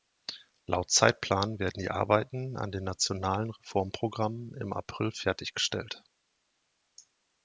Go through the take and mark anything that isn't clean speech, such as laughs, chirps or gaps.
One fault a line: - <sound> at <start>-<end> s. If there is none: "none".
none